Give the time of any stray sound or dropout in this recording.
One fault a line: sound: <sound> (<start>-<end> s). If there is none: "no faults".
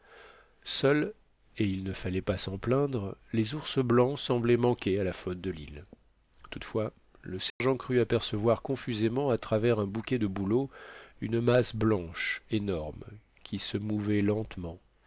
sound: dropout (7.5-7.6 s)